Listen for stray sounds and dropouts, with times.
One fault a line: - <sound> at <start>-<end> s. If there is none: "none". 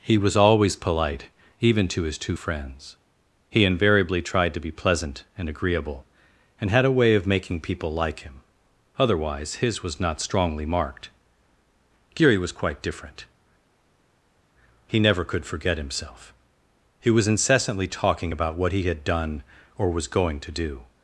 none